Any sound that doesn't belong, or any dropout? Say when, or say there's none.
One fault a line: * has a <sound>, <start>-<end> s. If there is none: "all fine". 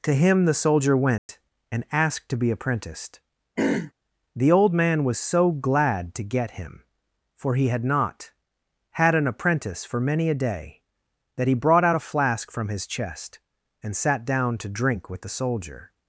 * has a dropout, 1.2-1.3 s
* has a throat clearing, 3.6-3.9 s